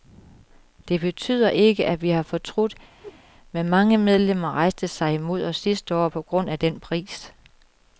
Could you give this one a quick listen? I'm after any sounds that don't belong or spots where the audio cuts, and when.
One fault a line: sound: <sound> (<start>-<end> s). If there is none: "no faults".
sound: whoosh (3.0-3.2 s)